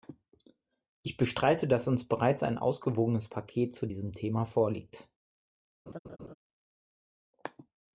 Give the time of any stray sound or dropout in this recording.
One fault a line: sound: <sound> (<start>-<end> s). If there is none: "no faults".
sound: laugh (5.9-6.3 s)